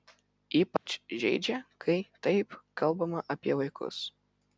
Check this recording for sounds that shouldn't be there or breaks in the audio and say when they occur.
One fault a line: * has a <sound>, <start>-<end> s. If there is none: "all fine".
* has a dropout, 0.8-0.9 s